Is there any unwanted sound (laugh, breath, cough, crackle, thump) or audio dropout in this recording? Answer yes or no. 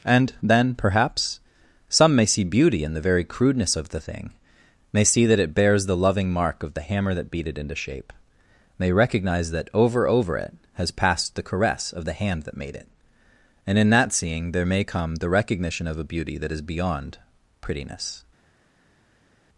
no